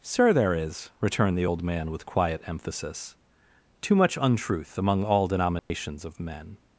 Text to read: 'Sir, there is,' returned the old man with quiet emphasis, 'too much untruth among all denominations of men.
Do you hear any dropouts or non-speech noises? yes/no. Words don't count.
yes